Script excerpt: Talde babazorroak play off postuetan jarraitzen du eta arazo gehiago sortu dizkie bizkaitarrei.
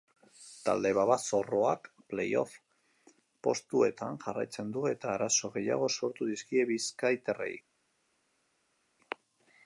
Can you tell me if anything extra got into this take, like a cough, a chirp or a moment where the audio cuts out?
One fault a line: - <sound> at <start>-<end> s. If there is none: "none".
none